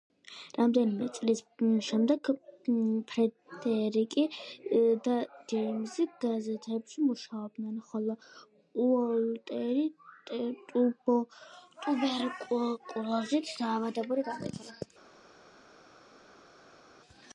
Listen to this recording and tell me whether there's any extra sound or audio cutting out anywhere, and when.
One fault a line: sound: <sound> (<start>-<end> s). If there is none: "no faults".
no faults